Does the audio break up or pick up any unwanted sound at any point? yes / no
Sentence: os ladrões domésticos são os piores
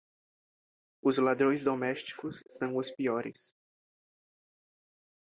no